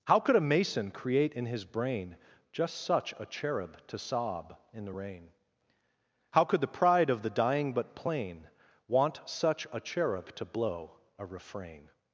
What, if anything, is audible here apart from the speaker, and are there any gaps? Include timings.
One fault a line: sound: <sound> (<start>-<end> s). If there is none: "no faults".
no faults